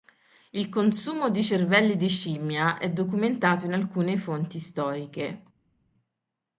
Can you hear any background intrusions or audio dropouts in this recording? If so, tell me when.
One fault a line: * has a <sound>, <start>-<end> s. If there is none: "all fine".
all fine